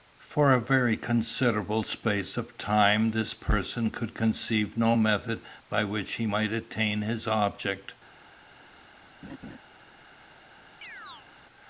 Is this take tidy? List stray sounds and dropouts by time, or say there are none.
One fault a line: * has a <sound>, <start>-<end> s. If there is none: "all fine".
* has a laugh, 9.2-9.6 s
* has a chirp, 10.8-11.3 s